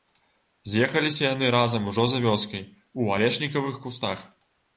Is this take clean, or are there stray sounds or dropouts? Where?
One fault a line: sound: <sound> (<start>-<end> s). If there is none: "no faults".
no faults